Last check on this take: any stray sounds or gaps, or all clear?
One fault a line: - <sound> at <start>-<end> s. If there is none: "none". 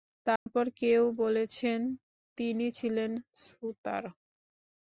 - dropout at 0.4-0.5 s